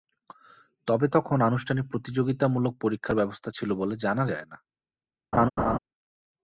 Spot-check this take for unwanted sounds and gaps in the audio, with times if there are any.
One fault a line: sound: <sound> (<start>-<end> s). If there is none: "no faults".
sound: laugh (5.3-5.8 s)